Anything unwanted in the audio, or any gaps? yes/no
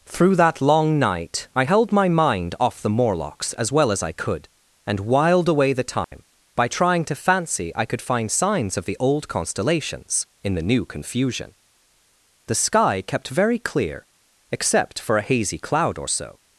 yes